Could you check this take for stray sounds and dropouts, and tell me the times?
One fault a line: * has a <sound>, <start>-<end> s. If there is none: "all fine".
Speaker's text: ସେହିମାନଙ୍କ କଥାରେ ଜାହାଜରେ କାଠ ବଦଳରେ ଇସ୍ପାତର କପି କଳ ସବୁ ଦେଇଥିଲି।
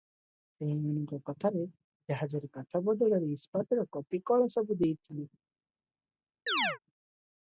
* has a chirp, 6.5-6.8 s